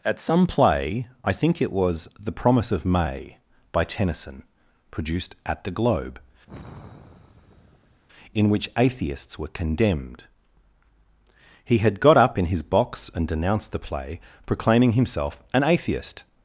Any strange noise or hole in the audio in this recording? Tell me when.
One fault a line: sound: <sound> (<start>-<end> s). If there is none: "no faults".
sound: sigh (6.5-8.0 s)